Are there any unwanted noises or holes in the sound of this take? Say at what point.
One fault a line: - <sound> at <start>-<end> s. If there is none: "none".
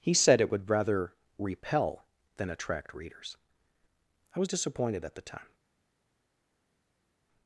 none